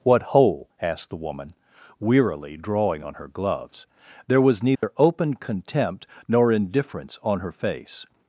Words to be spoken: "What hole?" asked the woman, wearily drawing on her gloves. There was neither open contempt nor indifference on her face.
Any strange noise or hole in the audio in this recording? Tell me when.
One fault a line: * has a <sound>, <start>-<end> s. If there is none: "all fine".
* has a dropout, 4.7-4.8 s